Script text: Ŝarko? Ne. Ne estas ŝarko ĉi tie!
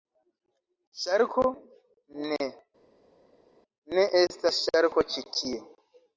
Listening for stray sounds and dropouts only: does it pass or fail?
pass